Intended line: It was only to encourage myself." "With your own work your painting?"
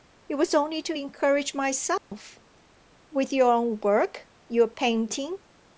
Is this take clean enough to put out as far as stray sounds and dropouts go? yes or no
no